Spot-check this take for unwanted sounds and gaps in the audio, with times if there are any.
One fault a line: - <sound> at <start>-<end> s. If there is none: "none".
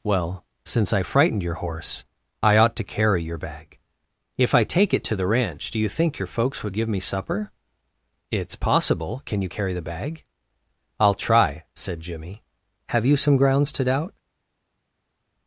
none